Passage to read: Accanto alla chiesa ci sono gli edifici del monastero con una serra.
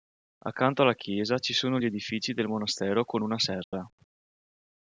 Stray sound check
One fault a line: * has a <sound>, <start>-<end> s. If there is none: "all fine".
* has a dropout, 3.6-3.7 s